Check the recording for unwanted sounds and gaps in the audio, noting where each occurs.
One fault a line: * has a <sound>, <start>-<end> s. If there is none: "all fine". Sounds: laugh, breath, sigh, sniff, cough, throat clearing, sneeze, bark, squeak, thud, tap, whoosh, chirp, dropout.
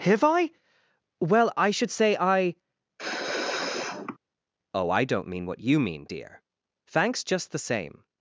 * has a sneeze, 3.0-4.2 s